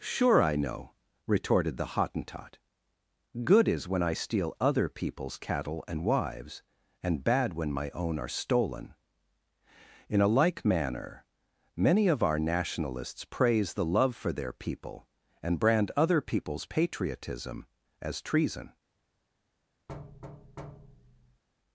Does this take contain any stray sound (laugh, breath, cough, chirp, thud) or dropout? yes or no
yes